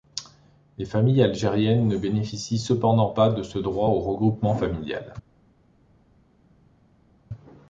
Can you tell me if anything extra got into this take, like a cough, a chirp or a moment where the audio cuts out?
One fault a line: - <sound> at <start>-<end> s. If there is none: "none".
none